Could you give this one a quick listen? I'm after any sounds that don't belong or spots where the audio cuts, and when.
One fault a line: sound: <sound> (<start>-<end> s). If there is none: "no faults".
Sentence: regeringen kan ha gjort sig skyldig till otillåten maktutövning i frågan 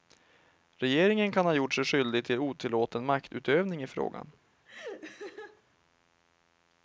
sound: laugh (4.7-5.6 s)